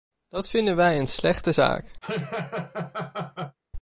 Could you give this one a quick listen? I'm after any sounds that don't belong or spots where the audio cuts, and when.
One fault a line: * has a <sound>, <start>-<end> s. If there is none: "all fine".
* has a laugh, 2.0-3.6 s